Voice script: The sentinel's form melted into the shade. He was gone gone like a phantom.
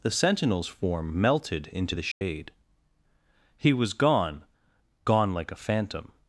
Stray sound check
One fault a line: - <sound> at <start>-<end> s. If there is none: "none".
- dropout at 2.1-2.2 s